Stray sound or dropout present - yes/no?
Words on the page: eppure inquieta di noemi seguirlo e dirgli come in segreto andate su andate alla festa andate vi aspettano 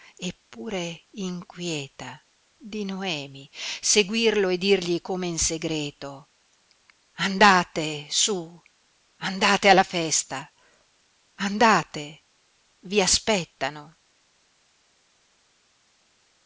no